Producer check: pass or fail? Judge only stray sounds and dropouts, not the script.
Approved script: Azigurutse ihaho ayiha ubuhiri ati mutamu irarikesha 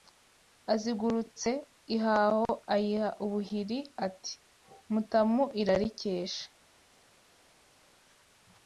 pass